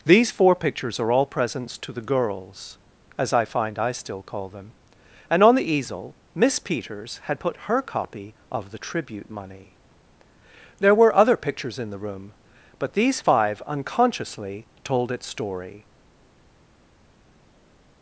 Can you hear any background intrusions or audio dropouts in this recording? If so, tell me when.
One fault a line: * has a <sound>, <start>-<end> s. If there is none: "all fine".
all fine